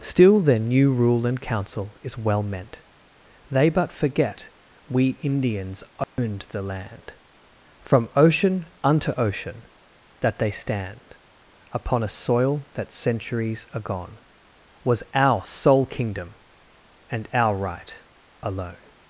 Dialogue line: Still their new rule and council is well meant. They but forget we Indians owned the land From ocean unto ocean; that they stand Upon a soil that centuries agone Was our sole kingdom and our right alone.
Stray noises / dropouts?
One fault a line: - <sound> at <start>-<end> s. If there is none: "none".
- dropout at 6.0-6.2 s